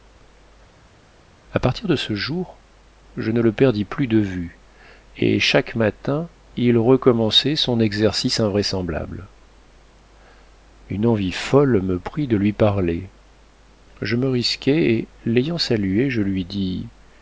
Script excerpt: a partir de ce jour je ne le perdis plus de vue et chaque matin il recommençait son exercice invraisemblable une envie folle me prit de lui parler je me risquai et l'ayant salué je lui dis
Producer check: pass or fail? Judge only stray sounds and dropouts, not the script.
pass